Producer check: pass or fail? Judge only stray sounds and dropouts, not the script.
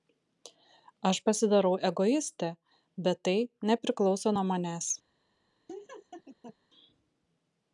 fail